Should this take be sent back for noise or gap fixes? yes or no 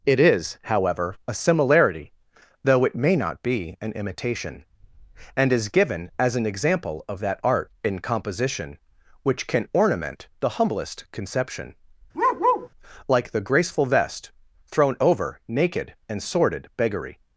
yes